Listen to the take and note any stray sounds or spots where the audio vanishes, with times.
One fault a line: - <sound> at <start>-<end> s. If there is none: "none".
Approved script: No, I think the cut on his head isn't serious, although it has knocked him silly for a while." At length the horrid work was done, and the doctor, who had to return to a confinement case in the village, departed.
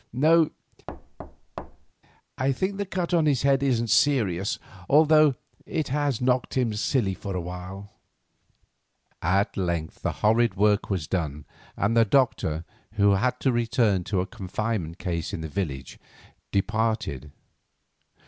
- thud at 0.9-1.9 s